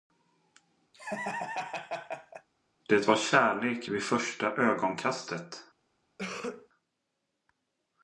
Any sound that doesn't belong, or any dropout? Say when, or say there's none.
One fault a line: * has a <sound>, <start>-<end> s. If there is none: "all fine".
* has a laugh, 0.9-2.5 s
* has a cough, 6.2-6.7 s